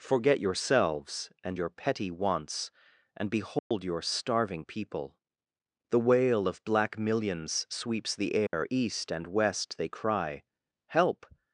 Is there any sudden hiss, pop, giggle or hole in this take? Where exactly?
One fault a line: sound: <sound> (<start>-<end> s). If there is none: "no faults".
sound: dropout (3.6-3.7 s)
sound: dropout (8.5-8.5 s)